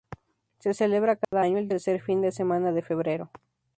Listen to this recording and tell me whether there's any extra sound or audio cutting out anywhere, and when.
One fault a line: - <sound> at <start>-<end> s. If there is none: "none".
- dropout at 1.2-1.3 s